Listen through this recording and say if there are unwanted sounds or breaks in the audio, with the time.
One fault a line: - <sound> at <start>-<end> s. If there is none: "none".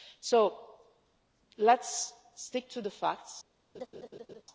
- laugh at 3.7-4.4 s